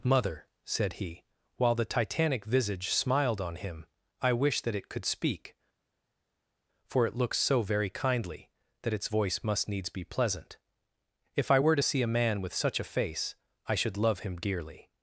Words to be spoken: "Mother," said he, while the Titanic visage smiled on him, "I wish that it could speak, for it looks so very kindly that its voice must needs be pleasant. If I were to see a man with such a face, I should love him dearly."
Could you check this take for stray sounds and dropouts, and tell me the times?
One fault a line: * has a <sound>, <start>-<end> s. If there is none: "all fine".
all fine